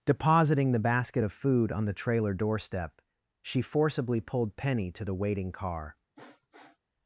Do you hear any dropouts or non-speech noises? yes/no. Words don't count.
yes